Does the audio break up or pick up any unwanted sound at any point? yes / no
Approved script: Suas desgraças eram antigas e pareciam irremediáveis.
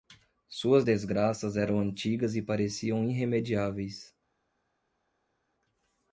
no